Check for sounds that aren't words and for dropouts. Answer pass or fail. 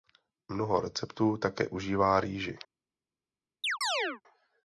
fail